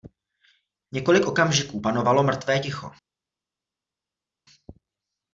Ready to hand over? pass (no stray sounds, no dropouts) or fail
pass